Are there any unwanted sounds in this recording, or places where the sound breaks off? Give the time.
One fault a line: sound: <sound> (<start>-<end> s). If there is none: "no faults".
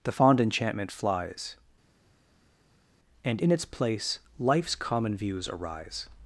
no faults